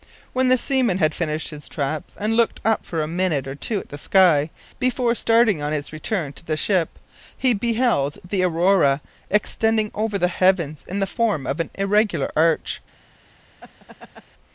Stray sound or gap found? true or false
true